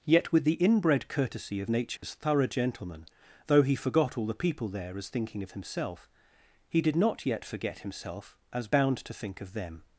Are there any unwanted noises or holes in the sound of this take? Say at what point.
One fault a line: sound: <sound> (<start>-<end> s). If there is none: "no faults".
sound: dropout (2.0-2.0 s)